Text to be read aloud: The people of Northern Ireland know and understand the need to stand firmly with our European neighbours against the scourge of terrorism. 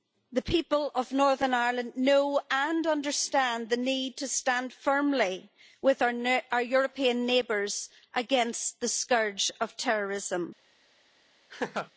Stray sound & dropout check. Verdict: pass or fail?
fail